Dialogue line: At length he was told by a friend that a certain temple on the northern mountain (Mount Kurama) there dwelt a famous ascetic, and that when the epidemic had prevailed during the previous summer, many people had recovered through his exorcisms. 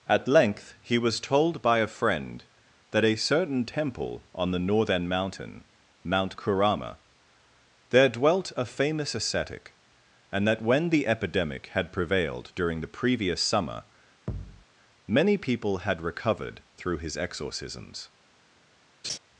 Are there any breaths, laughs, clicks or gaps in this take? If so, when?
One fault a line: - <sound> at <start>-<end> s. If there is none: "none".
- thud at 14.3-14.6 s
- laugh at 19.0-19.2 s